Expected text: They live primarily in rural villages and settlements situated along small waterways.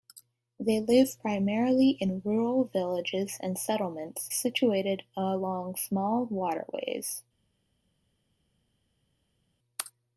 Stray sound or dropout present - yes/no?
no